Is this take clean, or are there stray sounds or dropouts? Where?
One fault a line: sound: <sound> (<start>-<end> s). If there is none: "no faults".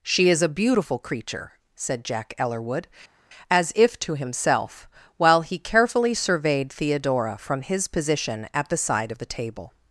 no faults